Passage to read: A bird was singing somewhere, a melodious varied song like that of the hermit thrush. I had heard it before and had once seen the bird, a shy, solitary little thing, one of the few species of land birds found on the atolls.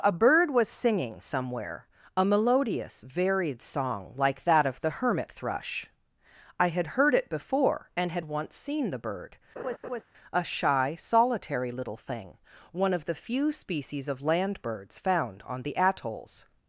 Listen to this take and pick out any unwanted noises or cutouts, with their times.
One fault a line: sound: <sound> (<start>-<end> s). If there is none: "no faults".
sound: laugh (9.6-10.0 s)